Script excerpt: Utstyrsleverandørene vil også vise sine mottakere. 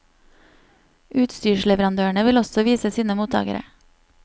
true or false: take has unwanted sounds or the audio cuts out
false